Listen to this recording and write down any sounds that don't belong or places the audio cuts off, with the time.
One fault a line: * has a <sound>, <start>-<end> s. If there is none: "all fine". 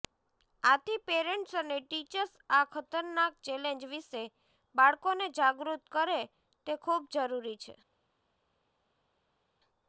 all fine